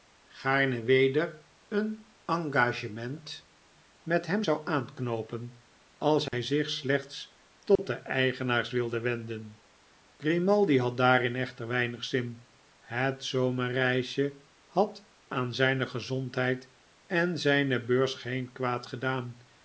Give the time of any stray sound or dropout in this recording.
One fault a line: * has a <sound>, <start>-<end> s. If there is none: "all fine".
* has a dropout, 6.3-6.3 s
* has a dropout, 7.8-7.8 s